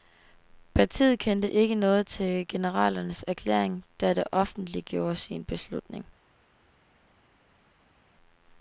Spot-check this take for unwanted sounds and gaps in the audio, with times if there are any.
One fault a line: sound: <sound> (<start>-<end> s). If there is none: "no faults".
no faults